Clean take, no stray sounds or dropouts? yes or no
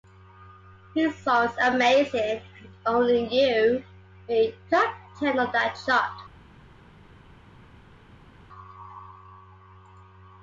yes